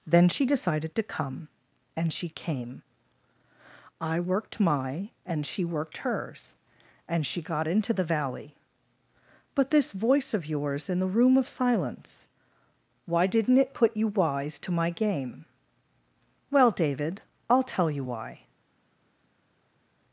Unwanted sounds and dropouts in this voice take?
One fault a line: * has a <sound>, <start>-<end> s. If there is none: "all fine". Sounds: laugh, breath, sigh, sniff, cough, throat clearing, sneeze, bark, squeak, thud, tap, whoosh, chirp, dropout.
all fine